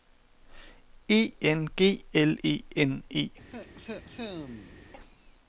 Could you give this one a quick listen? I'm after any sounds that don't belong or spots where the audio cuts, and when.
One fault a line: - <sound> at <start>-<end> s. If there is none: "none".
- cough at 3.5-4.9 s